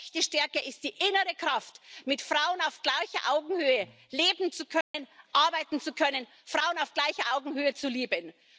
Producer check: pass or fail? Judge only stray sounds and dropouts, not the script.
fail